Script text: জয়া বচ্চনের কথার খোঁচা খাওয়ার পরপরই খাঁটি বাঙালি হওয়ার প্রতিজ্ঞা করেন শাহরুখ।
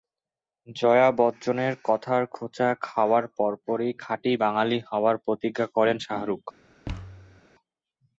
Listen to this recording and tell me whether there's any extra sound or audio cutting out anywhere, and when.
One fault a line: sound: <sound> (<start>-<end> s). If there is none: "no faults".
sound: thud (6.9-7.4 s)